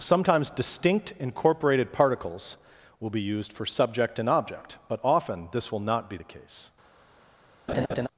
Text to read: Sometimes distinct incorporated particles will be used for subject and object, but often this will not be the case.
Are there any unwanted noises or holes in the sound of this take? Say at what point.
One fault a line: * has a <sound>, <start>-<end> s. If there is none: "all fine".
* has a laugh, 7.7-8.1 s